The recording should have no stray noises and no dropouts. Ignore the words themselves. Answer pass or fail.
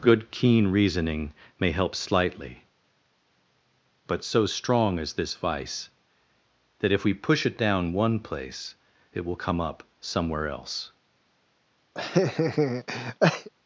fail